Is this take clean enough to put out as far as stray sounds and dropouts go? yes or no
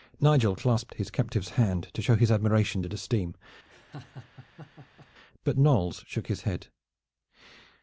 no